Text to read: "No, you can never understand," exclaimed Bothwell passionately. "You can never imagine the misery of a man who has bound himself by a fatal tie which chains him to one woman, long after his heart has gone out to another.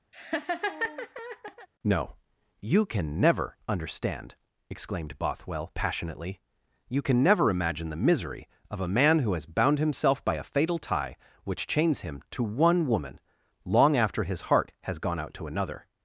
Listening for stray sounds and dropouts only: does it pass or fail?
fail